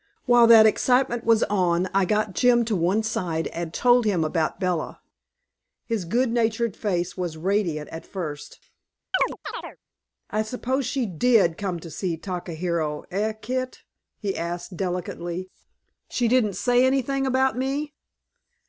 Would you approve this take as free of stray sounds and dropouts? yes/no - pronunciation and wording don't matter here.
no